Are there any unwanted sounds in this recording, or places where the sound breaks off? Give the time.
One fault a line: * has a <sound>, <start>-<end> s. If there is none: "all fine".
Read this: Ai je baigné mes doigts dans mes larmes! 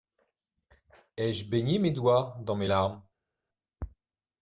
all fine